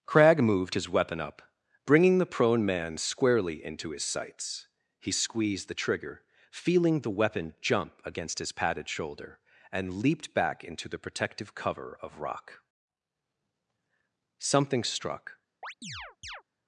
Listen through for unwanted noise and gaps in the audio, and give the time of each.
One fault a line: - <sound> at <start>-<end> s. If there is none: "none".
- chirp at 15.6-16.4 s